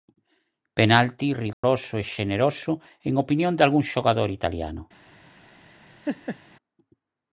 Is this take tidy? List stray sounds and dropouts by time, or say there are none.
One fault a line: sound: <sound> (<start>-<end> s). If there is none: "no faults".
sound: dropout (1.5-1.6 s)
sound: laugh (6.0-6.4 s)